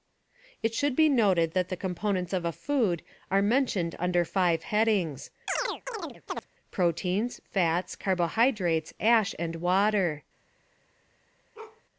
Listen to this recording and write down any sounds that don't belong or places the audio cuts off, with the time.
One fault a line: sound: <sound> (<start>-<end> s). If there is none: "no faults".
sound: chirp (5.5-6.5 s)
sound: bark (11.5-11.8 s)